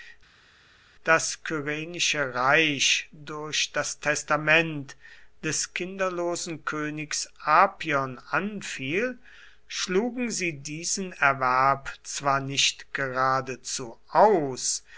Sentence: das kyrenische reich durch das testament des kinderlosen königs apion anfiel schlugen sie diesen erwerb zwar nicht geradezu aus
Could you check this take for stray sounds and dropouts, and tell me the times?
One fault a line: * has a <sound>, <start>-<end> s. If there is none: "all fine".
all fine